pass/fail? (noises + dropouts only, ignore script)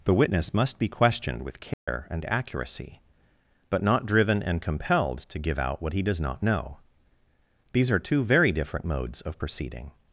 fail